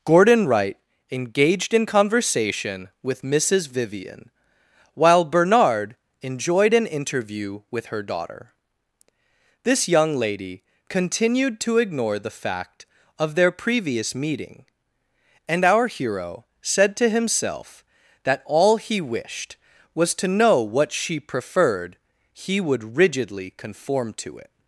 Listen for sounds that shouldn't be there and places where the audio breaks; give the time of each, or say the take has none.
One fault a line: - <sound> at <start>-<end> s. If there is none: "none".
none